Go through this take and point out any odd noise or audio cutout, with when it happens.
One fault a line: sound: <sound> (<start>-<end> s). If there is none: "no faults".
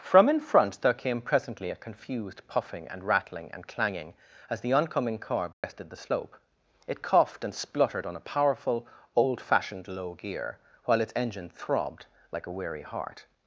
sound: dropout (5.5-5.6 s)